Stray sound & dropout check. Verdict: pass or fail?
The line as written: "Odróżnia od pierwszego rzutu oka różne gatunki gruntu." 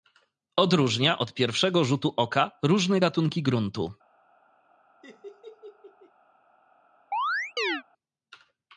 fail